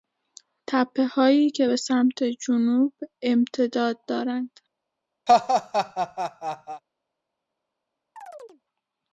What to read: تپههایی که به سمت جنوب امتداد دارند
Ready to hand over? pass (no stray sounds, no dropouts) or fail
fail